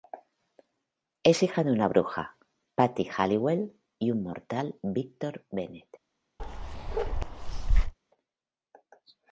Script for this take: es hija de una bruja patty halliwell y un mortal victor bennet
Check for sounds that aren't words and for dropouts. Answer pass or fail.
fail